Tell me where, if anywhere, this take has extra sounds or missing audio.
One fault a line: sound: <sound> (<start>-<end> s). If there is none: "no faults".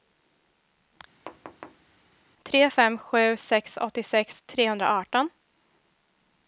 sound: thud (1.3-1.9 s)